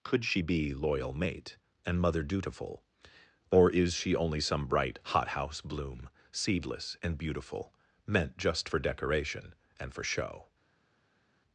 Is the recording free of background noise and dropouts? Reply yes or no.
yes